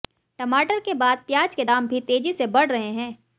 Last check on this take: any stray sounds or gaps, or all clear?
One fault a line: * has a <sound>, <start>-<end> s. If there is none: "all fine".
all fine